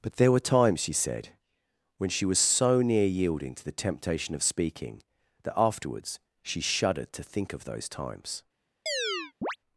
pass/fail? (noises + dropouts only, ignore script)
fail